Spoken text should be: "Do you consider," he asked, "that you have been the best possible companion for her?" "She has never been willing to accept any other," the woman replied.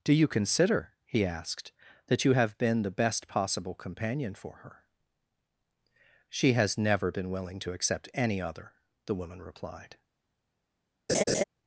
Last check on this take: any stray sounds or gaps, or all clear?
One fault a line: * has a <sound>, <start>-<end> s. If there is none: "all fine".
* has a laugh, 11.1-11.4 s